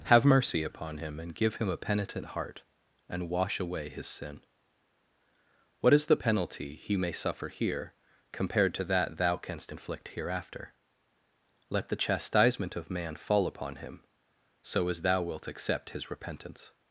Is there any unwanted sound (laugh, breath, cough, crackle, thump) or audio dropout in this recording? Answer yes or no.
no